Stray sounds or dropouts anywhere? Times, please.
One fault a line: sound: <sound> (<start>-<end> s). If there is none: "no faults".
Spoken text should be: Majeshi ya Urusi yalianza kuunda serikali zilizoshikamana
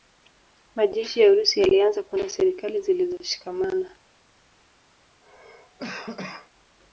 sound: cough (5.2-6.5 s)